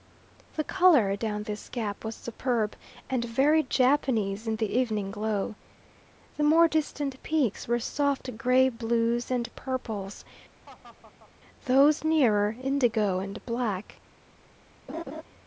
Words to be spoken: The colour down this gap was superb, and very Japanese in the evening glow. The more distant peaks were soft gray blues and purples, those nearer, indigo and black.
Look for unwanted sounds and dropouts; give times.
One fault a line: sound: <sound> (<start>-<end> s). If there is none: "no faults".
sound: laugh (10.6-11.3 s)
sound: laugh (14.9-15.2 s)